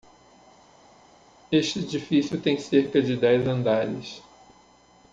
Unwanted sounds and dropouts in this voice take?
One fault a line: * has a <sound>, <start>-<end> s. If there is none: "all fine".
all fine